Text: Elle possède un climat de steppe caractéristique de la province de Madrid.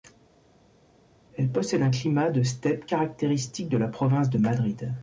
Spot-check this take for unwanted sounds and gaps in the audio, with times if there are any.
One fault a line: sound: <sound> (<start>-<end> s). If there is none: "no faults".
no faults